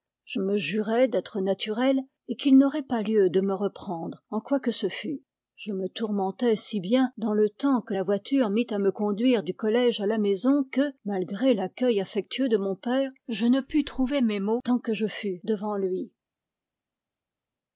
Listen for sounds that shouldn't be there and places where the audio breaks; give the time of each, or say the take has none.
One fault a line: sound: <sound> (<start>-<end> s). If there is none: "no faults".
no faults